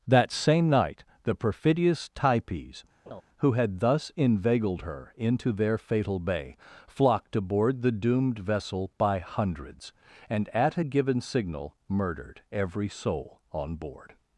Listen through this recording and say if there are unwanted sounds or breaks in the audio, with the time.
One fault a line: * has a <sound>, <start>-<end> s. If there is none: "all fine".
* has a laugh, 3.1-3.2 s